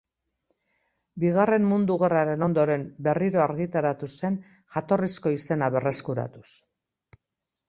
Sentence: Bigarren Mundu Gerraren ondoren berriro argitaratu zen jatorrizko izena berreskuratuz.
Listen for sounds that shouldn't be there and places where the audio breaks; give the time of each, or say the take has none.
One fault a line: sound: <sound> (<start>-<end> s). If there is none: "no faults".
no faults